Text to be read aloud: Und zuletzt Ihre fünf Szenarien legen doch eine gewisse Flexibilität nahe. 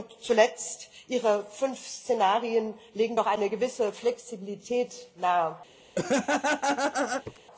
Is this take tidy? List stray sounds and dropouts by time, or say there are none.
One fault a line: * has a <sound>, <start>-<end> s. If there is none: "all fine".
* has a laugh, 6.0-7.4 s